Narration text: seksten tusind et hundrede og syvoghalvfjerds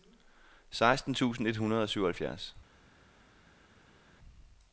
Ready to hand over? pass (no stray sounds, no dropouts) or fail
pass